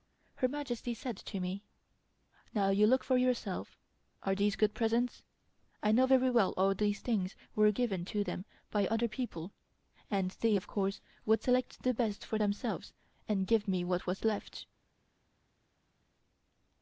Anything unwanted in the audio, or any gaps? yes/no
no